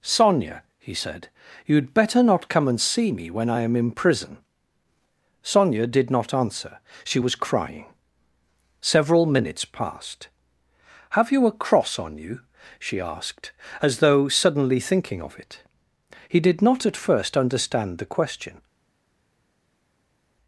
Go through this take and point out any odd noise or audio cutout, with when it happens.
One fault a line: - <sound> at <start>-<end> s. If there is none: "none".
none